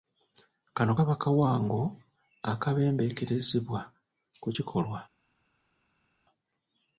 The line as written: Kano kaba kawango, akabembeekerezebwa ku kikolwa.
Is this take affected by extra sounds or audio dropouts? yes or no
no